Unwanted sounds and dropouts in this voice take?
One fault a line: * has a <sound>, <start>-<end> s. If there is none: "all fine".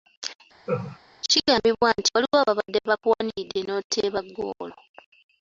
* has a laugh, 0.7-1.0 s